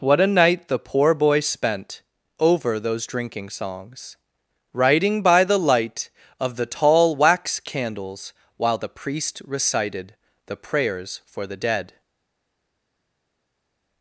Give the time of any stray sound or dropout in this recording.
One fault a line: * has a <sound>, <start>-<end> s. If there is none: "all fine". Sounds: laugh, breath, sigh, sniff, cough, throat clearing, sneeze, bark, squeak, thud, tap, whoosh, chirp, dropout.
all fine